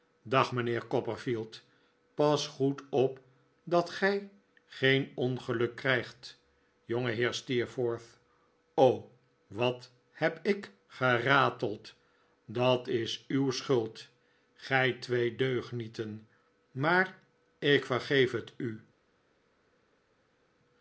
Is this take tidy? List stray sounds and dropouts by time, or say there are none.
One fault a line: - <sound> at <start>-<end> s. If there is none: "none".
none